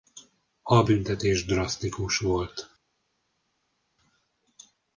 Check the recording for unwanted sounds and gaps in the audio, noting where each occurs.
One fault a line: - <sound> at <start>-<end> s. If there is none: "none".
none